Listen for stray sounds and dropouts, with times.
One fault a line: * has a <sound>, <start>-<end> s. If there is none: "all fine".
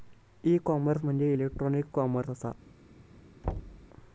* has a thud, 3.4-3.9 s